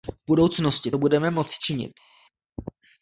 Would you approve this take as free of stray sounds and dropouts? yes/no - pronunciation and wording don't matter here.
yes